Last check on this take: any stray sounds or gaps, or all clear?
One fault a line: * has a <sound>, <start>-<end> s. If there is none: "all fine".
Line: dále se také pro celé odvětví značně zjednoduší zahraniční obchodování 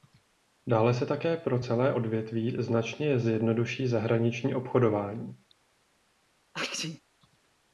* has a sneeze, 6.5-7.0 s